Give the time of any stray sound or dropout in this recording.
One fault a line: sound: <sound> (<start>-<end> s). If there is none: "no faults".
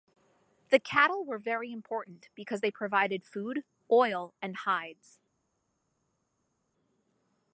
no faults